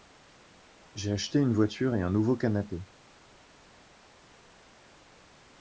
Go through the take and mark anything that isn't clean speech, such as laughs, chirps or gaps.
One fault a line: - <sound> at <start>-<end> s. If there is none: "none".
none